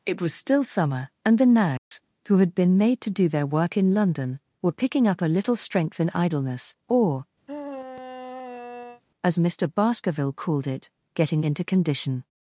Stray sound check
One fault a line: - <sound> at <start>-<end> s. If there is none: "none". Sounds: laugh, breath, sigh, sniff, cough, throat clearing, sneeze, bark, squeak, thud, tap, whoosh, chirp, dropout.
- dropout at 1.8-1.9 s
- sigh at 7.5-9.0 s